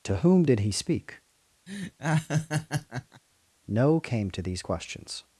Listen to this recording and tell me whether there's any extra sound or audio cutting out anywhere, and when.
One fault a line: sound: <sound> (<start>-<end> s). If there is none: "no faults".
sound: laugh (1.7-3.2 s)